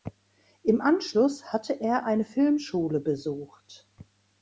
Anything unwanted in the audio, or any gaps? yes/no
no